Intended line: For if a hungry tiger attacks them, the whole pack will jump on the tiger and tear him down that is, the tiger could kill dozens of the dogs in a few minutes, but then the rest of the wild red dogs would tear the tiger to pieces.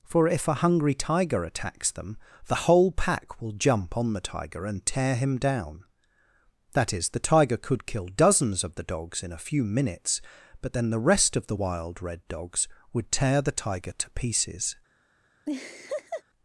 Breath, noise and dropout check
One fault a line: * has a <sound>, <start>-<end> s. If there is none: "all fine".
* has a laugh, 15.5-16.2 s